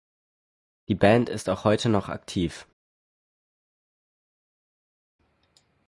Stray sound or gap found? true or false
false